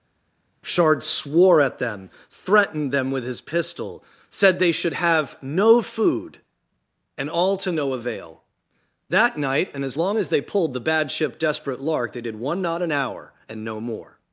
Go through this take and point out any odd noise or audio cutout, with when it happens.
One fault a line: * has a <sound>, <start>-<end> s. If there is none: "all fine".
all fine